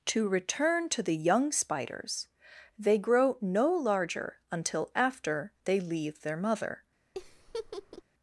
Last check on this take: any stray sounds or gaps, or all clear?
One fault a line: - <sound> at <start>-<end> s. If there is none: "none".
- laugh at 7.1-8.0 s